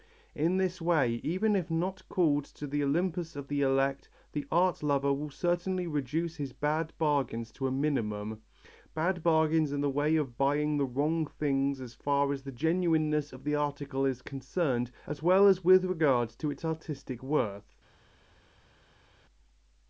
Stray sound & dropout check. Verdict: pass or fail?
pass